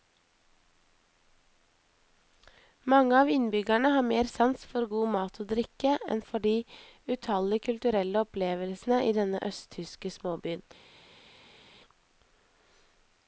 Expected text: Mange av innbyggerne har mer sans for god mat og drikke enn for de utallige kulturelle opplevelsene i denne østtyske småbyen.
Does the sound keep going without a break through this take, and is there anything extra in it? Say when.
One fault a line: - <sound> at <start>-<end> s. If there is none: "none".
none